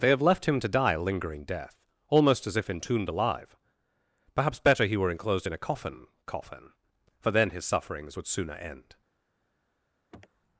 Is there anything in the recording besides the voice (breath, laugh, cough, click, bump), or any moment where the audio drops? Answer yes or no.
yes